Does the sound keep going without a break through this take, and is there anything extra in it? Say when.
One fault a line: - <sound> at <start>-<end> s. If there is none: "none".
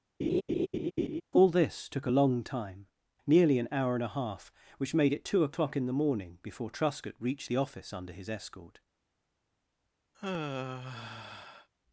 - laugh at 0.2-1.2 s
- sigh at 10.1-11.7 s